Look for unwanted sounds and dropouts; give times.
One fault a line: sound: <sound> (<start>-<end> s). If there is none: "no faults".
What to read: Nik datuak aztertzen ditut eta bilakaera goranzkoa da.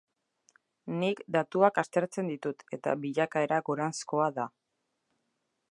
no faults